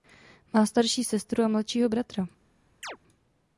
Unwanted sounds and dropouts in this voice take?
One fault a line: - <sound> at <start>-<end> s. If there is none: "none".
- chirp at 2.8-3.0 s